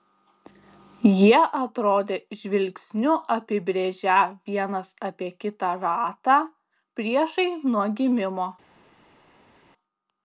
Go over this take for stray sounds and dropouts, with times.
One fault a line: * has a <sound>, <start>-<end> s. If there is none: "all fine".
all fine